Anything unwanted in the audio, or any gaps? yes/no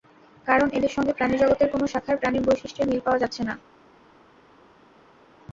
no